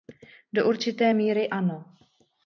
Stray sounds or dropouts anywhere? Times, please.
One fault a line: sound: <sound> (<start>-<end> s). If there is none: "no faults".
no faults